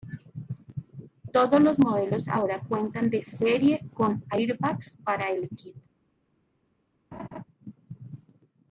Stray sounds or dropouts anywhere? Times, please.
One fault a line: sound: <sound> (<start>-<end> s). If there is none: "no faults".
sound: laugh (7.1-7.4 s)